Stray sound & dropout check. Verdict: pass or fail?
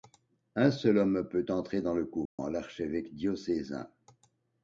fail